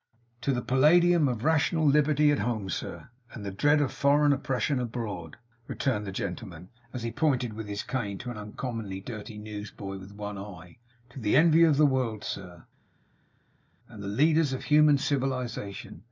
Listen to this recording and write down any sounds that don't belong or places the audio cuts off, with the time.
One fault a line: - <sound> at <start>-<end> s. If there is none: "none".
none